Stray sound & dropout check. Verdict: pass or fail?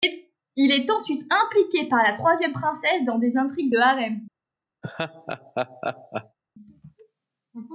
fail